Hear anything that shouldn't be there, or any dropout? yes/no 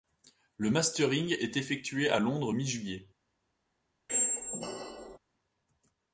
yes